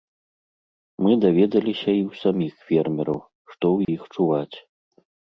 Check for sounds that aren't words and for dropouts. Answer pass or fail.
fail